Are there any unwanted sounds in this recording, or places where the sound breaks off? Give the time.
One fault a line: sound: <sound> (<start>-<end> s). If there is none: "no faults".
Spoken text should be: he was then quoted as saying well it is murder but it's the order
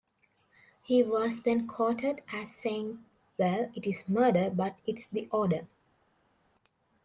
no faults